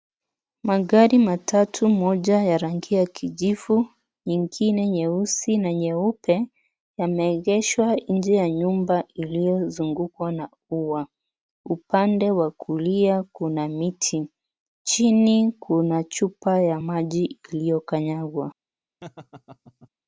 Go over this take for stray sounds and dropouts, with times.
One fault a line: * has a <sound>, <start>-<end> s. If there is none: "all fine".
* has a laugh, 19.0-19.9 s